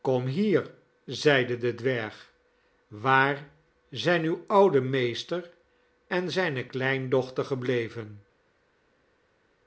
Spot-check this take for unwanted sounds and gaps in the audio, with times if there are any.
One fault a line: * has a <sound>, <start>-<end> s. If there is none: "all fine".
all fine